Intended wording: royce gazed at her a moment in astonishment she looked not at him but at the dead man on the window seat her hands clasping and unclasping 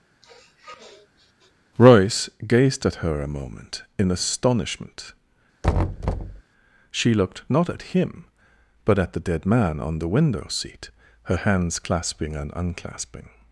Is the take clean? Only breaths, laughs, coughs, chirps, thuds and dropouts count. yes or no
no